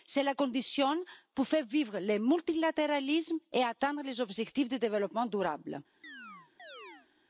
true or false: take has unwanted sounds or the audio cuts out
true